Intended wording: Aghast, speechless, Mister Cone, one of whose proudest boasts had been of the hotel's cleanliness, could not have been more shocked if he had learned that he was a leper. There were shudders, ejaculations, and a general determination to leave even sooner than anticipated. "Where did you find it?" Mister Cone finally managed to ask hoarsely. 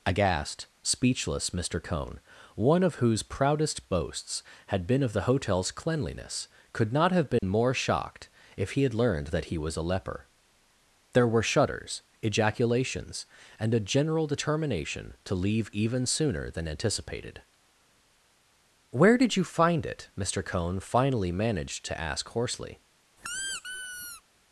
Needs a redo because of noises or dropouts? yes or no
yes